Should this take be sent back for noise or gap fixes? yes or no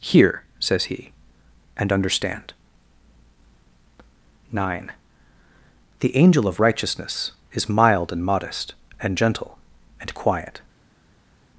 no